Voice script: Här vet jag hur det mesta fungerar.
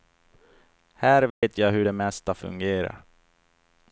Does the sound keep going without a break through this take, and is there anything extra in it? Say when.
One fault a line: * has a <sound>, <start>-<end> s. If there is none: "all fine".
* has a dropout, 1.3-1.4 s